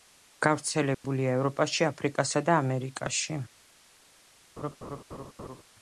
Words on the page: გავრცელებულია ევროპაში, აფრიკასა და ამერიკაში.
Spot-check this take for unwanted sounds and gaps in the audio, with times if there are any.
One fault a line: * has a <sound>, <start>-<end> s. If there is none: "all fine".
* has a dropout, 0.9-1.0 s
* has a laugh, 4.6-5.6 s